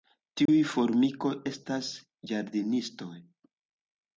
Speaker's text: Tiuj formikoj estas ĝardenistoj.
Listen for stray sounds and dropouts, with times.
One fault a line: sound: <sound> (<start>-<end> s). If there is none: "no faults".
sound: dropout (0.5-0.5 s)